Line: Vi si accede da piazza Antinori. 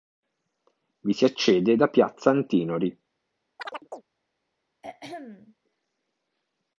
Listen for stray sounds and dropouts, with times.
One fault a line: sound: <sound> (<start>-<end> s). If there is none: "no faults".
sound: chirp (3.6-4.0 s)
sound: throat clearing (4.8-5.5 s)